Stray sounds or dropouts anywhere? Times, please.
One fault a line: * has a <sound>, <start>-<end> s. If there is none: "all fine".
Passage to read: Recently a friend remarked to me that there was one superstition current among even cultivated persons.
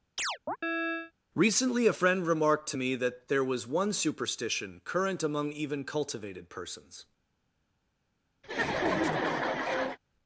* has a chirp, 0.2-1.1 s
* has a laugh, 8.4-10.0 s